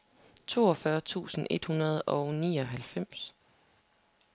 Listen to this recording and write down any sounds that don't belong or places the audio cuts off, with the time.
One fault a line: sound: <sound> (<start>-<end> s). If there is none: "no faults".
no faults